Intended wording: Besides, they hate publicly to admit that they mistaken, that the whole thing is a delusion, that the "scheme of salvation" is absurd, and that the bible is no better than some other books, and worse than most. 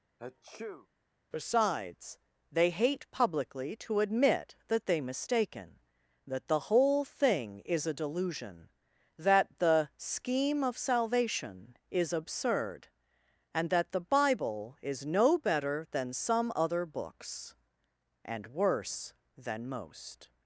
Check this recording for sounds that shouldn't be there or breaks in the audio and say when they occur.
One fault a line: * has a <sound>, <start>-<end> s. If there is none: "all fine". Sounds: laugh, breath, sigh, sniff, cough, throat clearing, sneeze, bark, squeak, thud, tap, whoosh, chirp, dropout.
* has a sneeze, 0.2-0.9 s